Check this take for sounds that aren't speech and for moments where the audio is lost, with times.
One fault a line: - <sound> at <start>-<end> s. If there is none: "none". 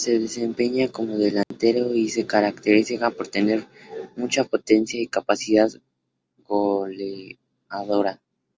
- dropout at 1.4-1.5 s